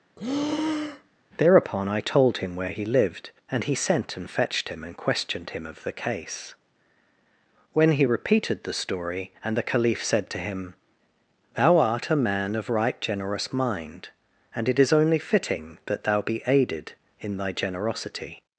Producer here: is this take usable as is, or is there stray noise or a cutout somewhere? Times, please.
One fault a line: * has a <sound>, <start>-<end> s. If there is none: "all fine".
* has a breath, 0.2-1.2 s